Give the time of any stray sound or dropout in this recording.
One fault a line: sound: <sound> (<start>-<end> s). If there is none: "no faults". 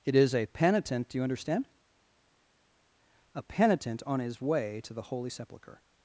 no faults